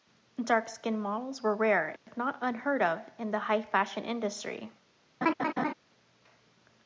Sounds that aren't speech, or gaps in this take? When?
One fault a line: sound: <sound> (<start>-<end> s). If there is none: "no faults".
sound: dropout (2.0-2.1 s)
sound: laugh (5.2-5.7 s)